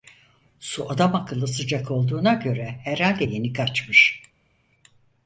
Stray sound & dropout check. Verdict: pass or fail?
pass